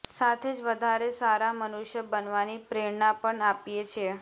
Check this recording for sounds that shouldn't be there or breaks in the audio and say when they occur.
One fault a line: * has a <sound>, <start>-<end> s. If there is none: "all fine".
all fine